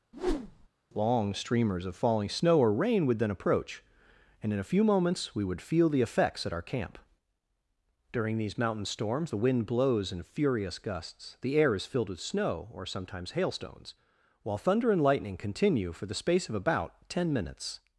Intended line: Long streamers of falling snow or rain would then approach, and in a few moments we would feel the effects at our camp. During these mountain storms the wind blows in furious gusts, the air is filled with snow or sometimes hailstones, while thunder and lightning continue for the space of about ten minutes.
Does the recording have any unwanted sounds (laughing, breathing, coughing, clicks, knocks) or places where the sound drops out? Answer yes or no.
yes